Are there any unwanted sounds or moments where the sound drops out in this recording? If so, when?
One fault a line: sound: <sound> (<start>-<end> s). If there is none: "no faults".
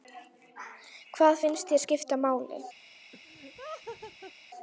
sound: laugh (3.1-4.3 s)